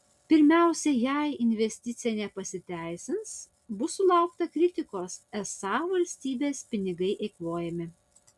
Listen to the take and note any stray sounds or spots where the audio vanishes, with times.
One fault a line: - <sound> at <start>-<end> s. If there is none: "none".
none